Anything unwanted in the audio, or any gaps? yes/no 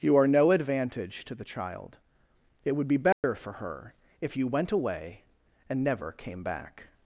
yes